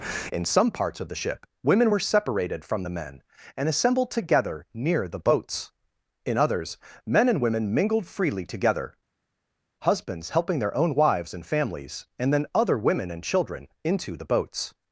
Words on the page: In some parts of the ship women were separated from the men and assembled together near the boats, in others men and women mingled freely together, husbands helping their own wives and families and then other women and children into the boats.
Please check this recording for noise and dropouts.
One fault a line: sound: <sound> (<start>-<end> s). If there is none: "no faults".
no faults